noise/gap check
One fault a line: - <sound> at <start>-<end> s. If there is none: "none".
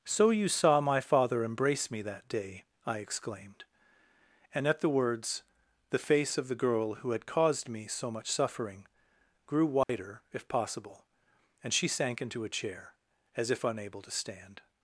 - dropout at 9.8-9.9 s